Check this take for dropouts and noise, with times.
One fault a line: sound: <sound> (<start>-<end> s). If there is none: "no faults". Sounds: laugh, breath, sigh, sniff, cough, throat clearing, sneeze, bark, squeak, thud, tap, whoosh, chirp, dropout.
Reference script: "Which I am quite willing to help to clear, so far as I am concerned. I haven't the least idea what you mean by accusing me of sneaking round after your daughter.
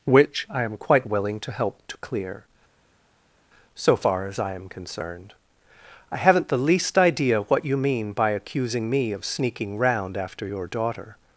no faults